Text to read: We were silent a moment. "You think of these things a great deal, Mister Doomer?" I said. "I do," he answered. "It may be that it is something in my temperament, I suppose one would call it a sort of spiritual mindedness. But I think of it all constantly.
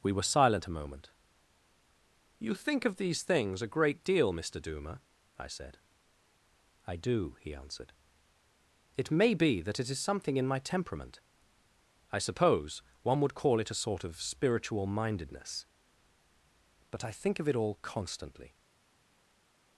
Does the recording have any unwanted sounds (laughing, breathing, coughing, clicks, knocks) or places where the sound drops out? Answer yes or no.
no